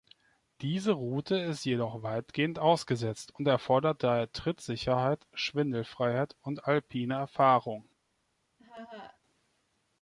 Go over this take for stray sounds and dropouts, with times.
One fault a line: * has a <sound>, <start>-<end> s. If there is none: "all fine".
* has a laugh, 8.6-9.2 s